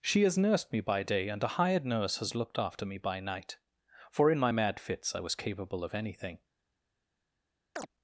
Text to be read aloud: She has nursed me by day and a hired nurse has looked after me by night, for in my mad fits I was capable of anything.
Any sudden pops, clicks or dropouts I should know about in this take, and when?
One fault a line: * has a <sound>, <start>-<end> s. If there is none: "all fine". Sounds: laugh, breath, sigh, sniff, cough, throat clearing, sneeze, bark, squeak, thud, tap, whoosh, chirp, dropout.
* has a chirp, 7.8-7.9 s